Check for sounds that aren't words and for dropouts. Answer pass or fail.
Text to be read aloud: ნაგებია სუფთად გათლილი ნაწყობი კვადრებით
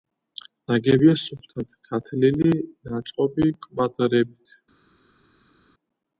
pass